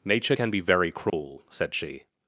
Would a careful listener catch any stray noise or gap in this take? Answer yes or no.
yes